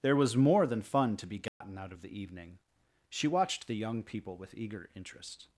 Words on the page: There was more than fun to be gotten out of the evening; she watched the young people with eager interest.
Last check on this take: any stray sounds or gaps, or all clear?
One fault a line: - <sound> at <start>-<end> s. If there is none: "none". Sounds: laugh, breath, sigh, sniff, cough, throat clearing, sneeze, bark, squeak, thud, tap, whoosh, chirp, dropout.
- dropout at 1.5-1.6 s